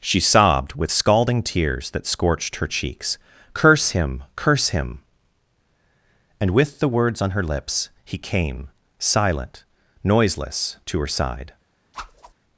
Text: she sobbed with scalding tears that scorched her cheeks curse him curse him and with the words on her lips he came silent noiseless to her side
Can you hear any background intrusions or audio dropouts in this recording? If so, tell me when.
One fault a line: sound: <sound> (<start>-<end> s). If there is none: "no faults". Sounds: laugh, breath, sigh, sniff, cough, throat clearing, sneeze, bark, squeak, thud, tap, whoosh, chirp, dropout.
sound: whoosh (11.9-12.3 s)